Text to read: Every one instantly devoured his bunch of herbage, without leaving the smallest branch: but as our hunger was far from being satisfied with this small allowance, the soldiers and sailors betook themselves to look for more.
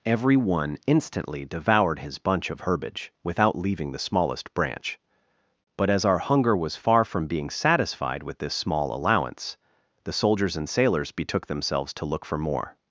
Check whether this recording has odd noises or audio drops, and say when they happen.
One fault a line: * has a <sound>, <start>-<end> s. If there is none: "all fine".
all fine